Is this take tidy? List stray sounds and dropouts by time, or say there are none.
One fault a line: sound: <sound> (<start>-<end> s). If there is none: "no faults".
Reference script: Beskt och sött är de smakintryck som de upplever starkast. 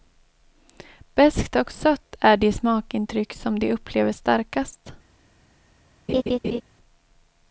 sound: laugh (6.1-6.6 s)